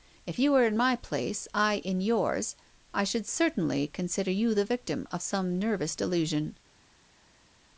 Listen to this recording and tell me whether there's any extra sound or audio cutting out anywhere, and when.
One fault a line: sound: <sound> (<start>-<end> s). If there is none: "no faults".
no faults